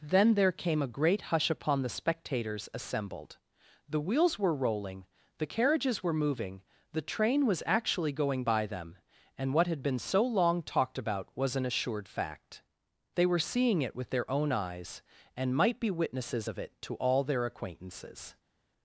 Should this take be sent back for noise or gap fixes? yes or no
no